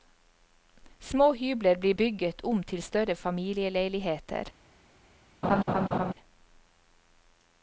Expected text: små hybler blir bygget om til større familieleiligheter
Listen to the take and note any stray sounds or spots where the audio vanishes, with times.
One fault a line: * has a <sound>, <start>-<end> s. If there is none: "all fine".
* has a laugh, 5.4-6.1 s